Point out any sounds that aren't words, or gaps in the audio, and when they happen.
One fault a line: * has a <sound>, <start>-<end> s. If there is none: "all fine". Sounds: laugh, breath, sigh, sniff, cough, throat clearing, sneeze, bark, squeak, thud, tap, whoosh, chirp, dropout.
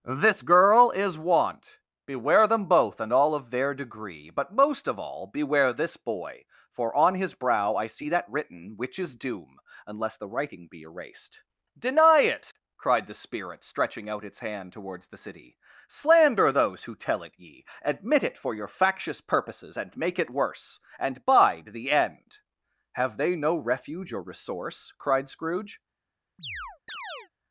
* has a chirp, 26.4-27.3 s